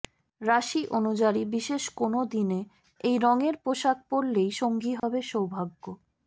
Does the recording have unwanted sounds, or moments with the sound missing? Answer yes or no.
yes